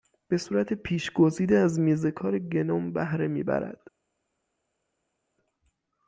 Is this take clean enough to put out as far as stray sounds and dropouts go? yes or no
yes